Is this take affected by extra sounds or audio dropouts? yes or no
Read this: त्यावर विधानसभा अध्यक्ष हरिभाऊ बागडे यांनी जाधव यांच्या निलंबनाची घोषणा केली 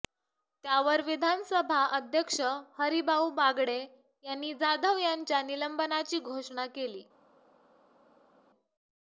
no